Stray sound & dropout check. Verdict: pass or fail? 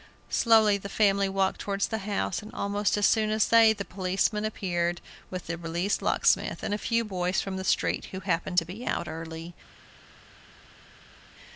pass